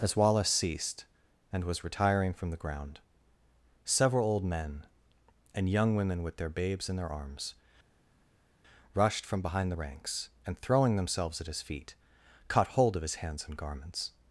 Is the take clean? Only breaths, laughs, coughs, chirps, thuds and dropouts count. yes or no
yes